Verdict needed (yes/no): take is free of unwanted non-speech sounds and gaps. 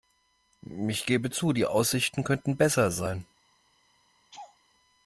no